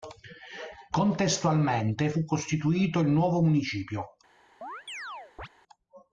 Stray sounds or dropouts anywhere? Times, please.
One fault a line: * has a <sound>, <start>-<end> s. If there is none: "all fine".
* has a chirp, 4.6-5.5 s